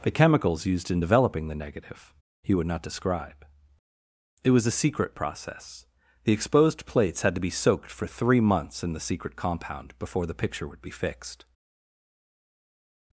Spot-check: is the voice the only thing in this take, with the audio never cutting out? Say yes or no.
yes